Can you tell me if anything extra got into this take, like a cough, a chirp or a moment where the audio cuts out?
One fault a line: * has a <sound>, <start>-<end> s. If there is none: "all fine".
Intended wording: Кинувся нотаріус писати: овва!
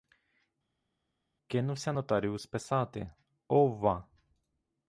all fine